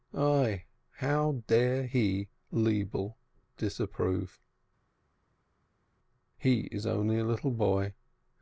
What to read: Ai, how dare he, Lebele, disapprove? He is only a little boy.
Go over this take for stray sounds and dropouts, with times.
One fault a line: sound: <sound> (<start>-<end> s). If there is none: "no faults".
no faults